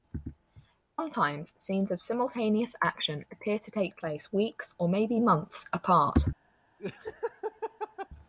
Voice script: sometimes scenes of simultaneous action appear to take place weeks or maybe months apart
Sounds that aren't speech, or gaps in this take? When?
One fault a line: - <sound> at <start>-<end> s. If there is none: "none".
- laugh at 6.8-8.1 s